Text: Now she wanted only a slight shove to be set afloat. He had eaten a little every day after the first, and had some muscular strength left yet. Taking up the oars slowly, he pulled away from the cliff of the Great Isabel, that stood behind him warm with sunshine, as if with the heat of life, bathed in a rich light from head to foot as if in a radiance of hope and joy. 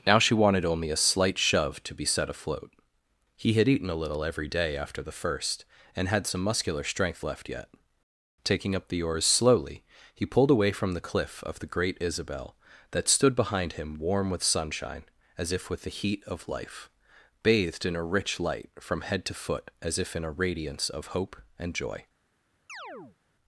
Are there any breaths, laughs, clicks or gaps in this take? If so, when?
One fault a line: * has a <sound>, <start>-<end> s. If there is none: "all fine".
* has a chirp, 22.7-23.2 s